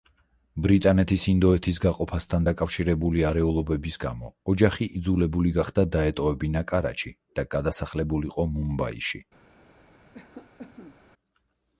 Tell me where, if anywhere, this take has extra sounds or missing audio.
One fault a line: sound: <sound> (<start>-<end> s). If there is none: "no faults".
sound: cough (10.1-11.0 s)